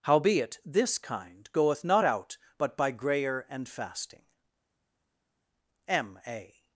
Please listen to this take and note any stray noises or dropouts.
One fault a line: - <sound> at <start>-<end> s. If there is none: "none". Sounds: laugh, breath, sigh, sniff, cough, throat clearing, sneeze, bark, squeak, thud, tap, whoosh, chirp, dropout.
none